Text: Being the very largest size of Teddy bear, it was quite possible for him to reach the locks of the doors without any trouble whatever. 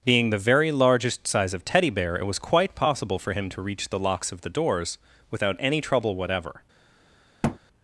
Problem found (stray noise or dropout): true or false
true